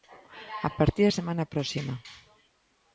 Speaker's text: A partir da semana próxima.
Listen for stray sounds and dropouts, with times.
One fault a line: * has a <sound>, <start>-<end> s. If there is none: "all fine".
all fine